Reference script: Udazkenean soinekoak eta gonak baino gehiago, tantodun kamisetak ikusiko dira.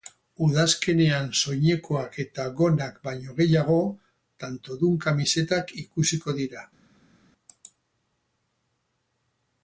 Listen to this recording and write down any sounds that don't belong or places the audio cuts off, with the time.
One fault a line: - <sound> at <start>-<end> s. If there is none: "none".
none